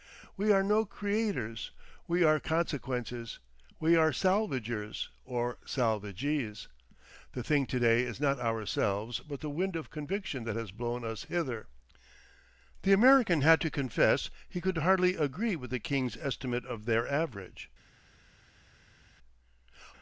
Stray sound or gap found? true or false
false